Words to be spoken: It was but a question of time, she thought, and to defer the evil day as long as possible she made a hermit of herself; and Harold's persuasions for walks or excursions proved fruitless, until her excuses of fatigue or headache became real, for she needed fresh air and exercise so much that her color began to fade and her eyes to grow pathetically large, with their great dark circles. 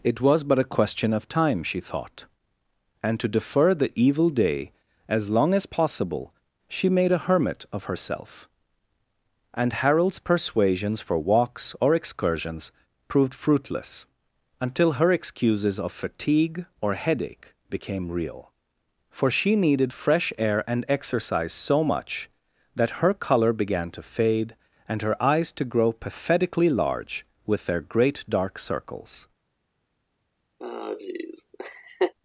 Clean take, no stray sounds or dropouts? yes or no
no